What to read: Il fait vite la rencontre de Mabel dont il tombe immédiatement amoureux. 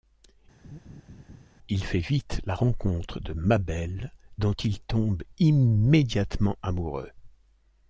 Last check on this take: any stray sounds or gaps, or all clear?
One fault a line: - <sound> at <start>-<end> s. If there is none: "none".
- laugh at 0.6-1.5 s